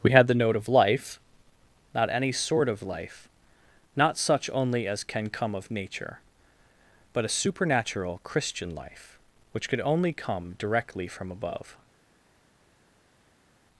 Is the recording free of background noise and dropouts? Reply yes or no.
yes